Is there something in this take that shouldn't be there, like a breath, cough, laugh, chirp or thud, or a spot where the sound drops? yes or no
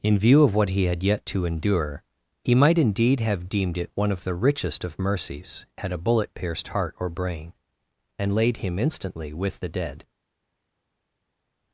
no